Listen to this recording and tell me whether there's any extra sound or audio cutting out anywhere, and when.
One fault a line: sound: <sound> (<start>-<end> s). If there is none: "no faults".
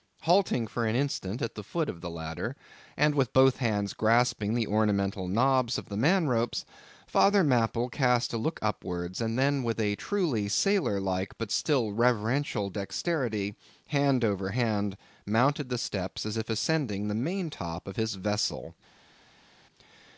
no faults